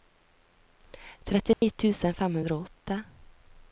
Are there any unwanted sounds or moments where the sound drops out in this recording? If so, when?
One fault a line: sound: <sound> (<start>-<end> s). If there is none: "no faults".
sound: dropout (1.5-1.6 s)